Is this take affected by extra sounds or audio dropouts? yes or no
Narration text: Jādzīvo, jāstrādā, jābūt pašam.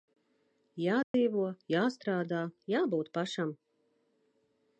yes